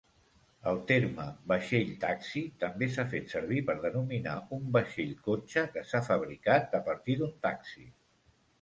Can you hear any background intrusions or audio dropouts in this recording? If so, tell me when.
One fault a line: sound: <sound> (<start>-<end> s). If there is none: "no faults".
no faults